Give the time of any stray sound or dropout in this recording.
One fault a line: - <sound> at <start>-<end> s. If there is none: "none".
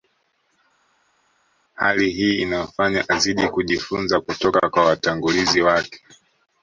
none